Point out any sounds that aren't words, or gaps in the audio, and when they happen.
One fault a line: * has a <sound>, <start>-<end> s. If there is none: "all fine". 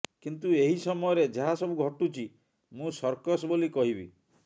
all fine